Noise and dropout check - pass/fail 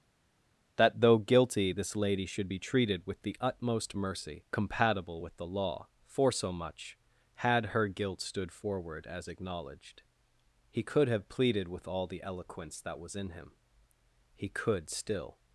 pass